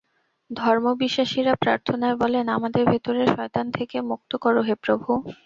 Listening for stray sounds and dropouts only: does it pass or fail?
pass